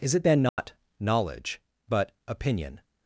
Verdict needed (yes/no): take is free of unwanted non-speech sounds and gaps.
no